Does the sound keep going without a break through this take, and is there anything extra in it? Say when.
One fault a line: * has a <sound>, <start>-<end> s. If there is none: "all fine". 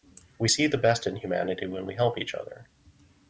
all fine